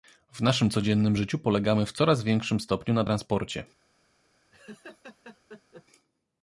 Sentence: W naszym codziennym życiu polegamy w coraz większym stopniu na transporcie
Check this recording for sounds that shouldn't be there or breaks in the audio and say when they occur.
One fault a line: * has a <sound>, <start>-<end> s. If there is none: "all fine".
* has a laugh, 4.5-5.9 s